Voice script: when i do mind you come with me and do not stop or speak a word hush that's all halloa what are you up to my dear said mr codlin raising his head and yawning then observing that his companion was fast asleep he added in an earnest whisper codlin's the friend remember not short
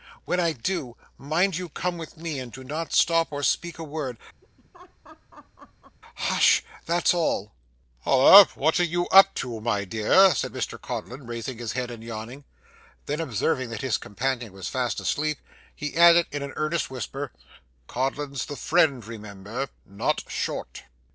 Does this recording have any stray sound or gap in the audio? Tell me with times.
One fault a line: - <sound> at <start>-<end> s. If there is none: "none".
- laugh at 4.4-6.0 s